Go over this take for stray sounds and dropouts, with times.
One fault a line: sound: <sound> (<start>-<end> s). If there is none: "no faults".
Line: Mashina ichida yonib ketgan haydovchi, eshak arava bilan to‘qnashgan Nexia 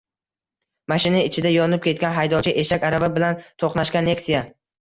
no faults